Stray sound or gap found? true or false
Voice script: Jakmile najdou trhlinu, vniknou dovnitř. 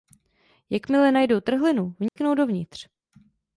true